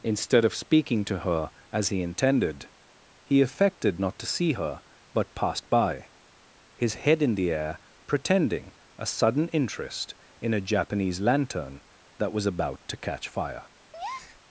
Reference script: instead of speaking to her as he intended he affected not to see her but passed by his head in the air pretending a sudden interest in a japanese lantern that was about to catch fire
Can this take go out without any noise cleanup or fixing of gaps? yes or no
no